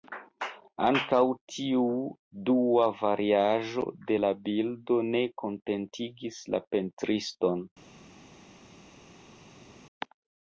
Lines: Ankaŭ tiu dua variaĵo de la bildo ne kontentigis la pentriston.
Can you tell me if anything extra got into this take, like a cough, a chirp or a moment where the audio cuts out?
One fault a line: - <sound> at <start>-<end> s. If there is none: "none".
none